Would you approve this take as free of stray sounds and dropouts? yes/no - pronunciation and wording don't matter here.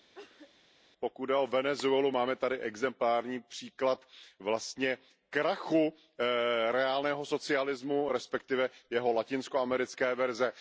no